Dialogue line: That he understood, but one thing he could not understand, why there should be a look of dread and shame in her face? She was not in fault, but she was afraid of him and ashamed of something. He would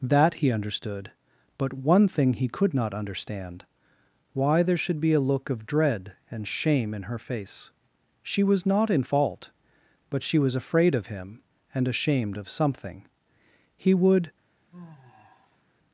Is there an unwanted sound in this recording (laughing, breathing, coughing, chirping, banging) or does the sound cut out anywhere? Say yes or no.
yes